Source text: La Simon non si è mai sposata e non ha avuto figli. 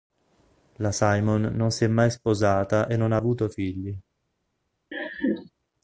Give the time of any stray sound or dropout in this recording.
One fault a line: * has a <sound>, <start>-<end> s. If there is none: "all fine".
* has a laugh, 4.9-5.5 s